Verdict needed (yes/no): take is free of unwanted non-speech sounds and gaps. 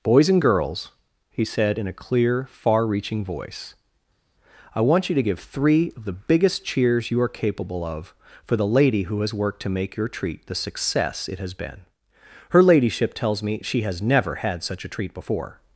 yes